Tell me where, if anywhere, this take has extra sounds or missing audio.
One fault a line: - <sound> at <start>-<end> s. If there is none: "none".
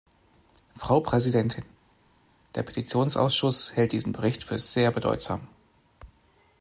none